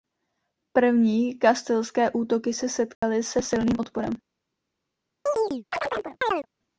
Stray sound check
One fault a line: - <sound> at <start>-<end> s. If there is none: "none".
- dropout at 2.9-3.0 s
- chirp at 5.3-6.5 s